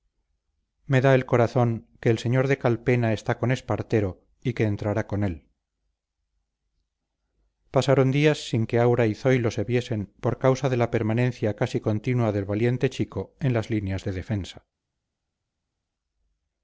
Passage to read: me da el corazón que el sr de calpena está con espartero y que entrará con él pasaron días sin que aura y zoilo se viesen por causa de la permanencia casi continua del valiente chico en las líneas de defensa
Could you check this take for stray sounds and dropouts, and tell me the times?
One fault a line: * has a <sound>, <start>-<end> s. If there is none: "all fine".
all fine